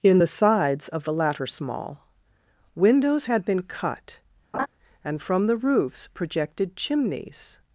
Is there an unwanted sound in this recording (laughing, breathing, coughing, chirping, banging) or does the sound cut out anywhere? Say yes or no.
yes